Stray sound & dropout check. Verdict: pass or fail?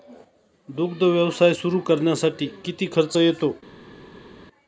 pass